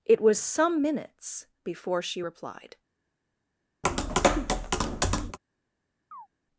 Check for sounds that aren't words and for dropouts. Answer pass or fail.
fail